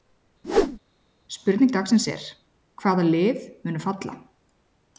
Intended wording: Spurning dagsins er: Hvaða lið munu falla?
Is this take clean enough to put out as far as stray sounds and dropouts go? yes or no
no